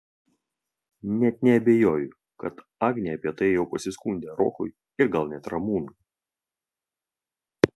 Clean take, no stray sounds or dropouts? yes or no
yes